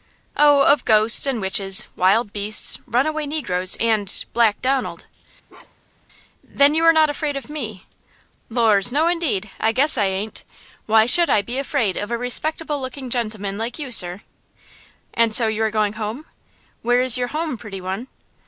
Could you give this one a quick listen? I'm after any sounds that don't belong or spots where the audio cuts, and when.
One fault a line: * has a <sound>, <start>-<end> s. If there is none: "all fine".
* has a bark, 5.5-6.1 s